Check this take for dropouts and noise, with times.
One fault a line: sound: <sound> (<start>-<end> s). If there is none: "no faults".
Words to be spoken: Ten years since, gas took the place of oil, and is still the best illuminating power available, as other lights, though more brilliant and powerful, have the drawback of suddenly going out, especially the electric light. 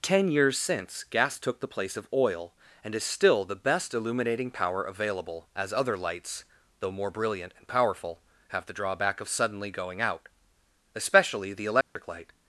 sound: dropout (11.8-12.0 s)